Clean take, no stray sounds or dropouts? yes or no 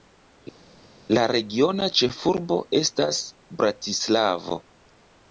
yes